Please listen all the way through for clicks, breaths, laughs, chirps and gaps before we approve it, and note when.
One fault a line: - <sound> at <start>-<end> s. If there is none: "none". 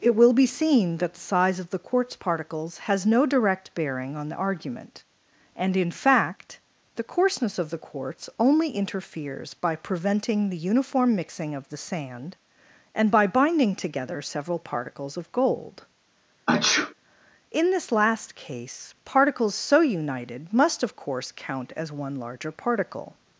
- sneeze at 16.5-16.9 s